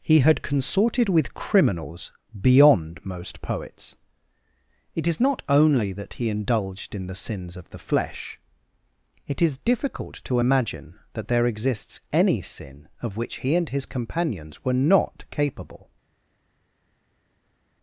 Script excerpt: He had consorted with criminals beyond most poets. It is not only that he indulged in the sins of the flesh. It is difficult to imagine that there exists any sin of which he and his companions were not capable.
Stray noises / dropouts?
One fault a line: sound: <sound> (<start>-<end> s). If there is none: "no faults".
no faults